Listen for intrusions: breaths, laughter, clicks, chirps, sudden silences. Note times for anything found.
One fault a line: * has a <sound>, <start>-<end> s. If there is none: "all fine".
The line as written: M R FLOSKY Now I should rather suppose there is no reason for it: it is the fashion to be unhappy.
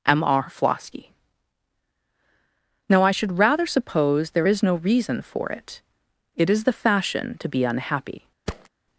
* has a thud, 8.5-8.7 s